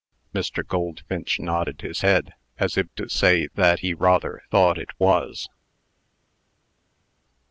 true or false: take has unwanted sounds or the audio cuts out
false